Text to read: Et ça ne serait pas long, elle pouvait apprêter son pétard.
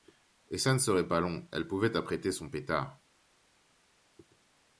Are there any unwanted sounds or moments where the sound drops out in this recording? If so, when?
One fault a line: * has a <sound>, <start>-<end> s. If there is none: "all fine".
all fine